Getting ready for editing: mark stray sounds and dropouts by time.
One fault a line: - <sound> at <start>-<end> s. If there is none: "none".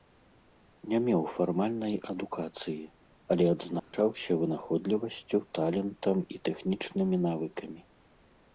- dropout at 3.8-3.9 s